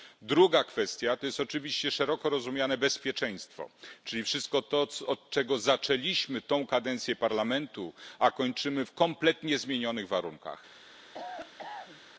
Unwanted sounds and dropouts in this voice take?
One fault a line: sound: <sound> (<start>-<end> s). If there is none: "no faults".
sound: cough (11.1-12.0 s)